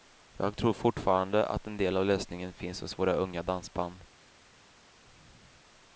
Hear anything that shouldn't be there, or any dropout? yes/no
no